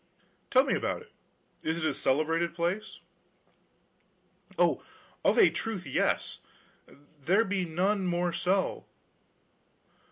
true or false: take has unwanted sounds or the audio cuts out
false